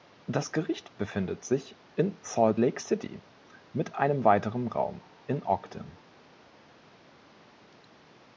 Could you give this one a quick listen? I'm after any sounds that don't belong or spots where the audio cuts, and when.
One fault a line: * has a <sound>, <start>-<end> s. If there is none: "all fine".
all fine